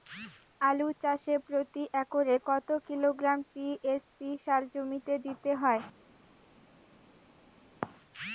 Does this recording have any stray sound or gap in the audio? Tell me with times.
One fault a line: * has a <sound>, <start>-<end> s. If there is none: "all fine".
all fine